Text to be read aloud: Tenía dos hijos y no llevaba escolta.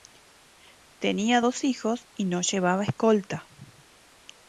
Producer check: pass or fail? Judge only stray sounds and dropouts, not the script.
pass